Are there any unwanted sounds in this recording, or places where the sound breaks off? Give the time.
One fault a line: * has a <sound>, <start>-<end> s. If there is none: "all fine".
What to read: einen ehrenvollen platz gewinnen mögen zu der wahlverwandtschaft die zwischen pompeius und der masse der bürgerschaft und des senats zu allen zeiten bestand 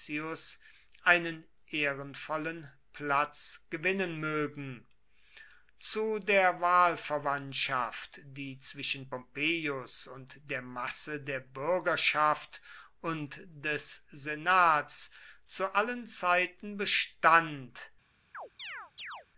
* has a chirp, 18.3-19.3 s